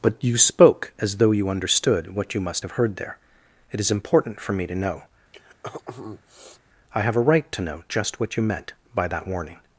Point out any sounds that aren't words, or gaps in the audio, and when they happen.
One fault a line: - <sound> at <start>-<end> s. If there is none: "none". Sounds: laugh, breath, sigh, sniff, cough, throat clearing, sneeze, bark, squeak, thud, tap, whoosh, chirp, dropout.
- throat clearing at 5.3-6.6 s